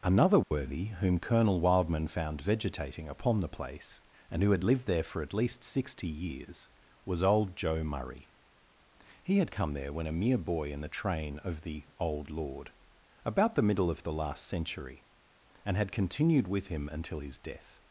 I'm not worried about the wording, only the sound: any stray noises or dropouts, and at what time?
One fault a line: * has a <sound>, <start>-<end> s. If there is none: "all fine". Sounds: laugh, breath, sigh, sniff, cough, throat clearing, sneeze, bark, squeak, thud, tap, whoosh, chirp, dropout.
* has a dropout, 0.4-0.5 s